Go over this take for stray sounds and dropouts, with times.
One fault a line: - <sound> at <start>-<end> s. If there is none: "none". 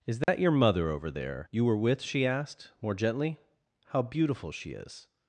- dropout at 0.2-0.3 s